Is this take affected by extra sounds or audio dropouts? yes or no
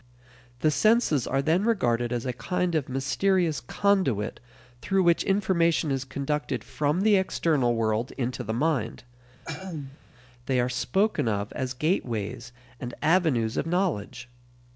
yes